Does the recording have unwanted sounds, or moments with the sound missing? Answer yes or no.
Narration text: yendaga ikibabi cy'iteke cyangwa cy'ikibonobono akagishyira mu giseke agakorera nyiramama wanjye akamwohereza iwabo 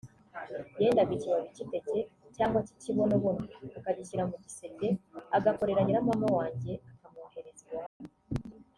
yes